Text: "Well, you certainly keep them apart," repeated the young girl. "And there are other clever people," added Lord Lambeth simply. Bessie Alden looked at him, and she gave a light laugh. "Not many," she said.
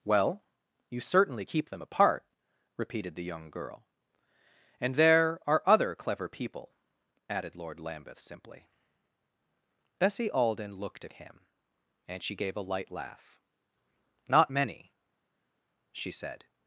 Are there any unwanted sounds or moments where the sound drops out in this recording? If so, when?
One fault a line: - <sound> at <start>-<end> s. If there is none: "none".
none